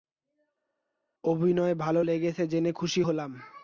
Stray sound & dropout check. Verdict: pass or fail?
pass